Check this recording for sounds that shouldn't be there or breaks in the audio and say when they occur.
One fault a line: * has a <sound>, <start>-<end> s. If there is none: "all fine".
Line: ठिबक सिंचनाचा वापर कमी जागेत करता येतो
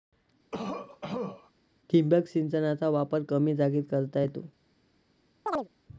* has a cough, 0.5-1.5 s
* has a chirp, 5.5-5.7 s